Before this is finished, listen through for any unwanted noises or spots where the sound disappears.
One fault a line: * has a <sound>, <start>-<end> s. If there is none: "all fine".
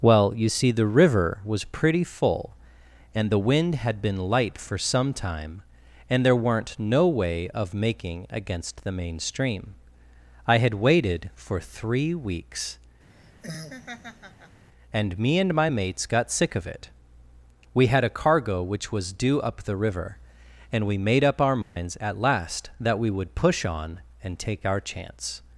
* has a laugh, 13.1-14.6 s
* has a dropout, 21.6-21.8 s